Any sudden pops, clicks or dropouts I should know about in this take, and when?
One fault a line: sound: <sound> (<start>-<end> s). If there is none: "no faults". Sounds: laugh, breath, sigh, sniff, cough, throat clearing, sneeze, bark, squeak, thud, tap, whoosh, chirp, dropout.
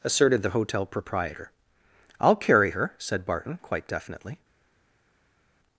no faults